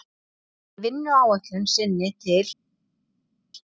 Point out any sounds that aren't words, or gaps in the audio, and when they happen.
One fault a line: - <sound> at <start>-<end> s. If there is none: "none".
none